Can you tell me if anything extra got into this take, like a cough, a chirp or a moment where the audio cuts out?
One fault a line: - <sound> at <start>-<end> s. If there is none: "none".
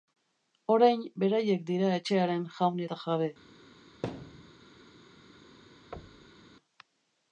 - thud at 4.0-4.5 s
- thud at 5.9-6.5 s